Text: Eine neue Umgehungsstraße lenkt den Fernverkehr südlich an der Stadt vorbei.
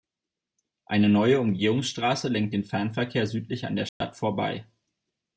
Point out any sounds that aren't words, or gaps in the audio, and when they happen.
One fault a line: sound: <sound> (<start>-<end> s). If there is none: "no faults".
sound: dropout (3.9-4.0 s)